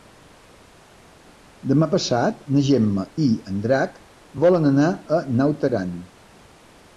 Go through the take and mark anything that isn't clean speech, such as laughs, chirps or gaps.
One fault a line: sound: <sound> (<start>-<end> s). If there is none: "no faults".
no faults